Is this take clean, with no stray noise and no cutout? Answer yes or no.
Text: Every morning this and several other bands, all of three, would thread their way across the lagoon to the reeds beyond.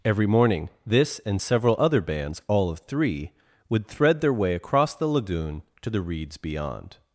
yes